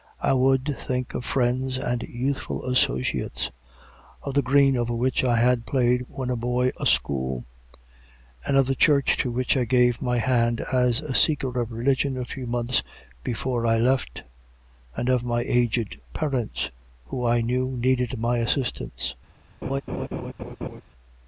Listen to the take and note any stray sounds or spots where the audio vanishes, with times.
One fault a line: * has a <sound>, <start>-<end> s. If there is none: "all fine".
* has a laugh, 19.6-20.8 s